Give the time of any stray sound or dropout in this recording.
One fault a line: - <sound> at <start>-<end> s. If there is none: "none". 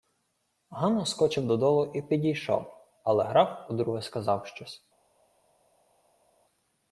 none